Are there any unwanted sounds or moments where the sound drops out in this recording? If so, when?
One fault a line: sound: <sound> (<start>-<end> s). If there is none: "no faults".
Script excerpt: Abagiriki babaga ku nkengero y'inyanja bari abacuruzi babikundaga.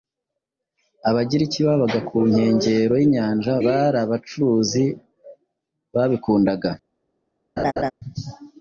sound: laugh (7.6-7.9 s)